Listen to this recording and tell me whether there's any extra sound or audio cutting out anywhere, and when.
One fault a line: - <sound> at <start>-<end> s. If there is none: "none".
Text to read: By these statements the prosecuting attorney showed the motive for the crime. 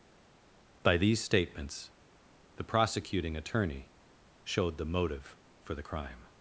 none